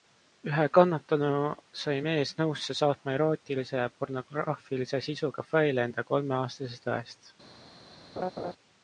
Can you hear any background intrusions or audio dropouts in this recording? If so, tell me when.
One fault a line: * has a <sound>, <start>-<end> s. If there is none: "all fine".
* has a laugh, 8.2-8.5 s